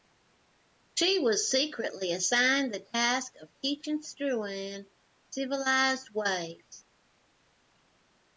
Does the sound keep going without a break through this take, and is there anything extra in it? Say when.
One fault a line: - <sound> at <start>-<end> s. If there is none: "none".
none